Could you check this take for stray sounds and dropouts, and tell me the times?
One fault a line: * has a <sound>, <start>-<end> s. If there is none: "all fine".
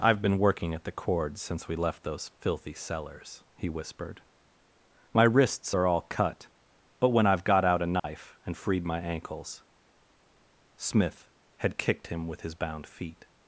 * has a dropout, 8.0-8.0 s